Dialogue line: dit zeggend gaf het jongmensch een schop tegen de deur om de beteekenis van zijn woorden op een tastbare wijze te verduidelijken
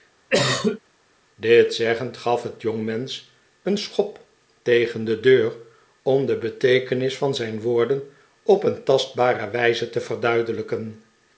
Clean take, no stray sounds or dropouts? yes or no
no